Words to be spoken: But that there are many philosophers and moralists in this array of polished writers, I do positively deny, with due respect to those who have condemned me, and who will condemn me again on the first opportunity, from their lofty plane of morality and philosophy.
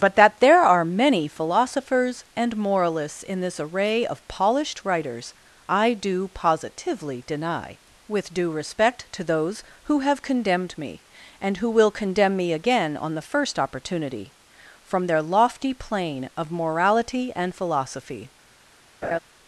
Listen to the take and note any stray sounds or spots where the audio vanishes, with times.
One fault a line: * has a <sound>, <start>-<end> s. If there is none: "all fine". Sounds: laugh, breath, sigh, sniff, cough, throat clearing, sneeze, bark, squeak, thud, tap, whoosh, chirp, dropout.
* has a laugh, 19.0-19.2 s